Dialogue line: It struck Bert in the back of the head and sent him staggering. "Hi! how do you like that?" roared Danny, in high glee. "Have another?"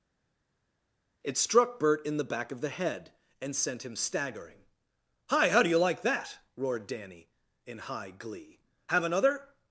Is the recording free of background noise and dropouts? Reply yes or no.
yes